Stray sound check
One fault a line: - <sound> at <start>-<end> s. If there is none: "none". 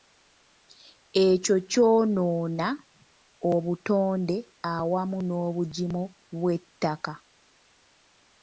none